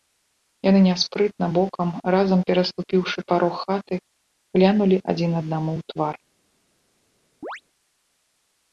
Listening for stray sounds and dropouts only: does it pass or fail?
fail